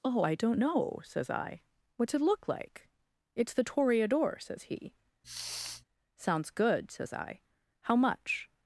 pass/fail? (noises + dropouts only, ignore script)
fail